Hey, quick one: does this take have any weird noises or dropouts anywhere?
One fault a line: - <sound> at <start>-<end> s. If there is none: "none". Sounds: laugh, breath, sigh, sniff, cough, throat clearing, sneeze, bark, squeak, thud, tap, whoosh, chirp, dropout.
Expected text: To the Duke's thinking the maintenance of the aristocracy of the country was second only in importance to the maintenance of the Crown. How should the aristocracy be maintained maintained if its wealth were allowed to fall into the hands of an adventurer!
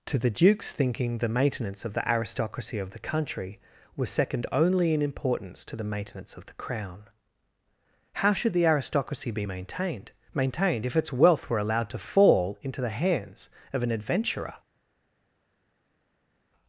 none